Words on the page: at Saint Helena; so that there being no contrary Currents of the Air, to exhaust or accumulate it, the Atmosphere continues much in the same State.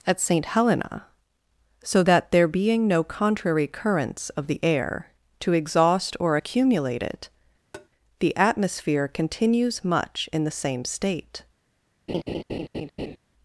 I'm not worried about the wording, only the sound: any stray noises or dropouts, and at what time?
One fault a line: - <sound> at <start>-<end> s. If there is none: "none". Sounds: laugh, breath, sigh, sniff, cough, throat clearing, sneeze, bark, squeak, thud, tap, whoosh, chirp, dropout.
- tap at 7.7-7.9 s
- laugh at 12.1-13.2 s